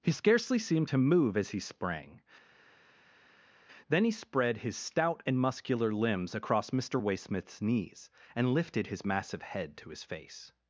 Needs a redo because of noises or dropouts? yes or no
no